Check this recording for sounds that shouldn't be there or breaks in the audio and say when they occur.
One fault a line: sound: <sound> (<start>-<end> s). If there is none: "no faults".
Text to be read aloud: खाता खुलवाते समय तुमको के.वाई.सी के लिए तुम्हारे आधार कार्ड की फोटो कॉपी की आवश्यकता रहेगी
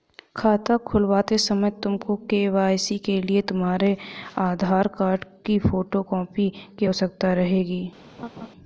sound: laugh (8.2-8.5 s)